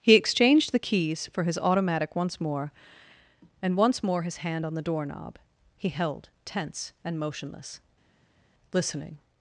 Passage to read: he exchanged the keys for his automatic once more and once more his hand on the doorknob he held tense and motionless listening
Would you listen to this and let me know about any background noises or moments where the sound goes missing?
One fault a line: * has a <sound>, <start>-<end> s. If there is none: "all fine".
all fine